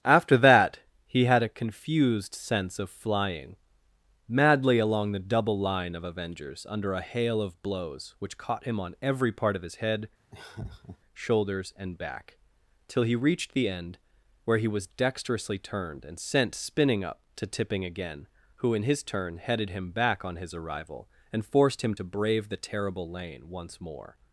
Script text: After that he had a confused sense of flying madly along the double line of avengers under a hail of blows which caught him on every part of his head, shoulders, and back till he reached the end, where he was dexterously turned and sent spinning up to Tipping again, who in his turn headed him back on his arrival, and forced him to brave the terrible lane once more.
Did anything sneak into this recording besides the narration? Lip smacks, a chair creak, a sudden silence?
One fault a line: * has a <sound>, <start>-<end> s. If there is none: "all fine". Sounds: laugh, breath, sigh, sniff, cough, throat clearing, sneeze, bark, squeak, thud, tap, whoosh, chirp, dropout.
* has a laugh, 10.3-11.0 s